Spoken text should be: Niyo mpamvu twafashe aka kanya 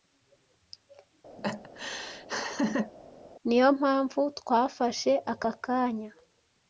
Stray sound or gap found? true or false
true